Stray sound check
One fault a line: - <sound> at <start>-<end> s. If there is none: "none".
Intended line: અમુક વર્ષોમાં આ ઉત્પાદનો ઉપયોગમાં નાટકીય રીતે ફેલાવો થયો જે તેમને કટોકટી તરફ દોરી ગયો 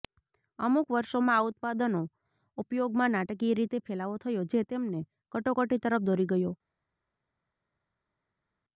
none